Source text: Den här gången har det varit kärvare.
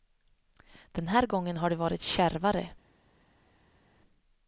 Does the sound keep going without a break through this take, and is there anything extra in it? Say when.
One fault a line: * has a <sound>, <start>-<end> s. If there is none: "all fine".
all fine